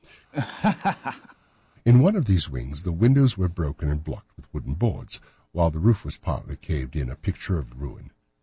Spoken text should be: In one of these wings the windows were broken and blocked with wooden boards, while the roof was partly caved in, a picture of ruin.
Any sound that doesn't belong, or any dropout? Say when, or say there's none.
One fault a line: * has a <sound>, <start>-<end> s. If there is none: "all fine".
* has a laugh, 0.3-1.3 s